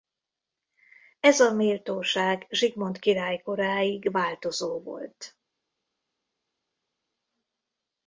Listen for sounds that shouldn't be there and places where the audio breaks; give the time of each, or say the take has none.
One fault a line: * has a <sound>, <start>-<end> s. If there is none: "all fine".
all fine